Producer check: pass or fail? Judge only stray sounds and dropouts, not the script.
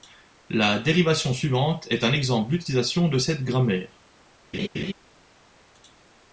fail